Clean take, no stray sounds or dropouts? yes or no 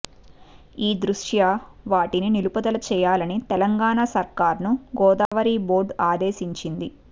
no